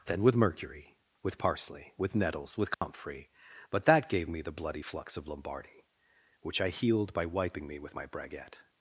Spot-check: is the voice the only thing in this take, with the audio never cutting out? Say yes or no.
no